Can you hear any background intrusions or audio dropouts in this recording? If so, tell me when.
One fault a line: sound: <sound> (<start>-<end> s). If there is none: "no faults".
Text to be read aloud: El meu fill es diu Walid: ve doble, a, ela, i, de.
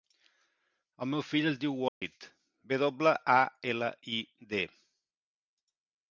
sound: dropout (1.9-2.0 s)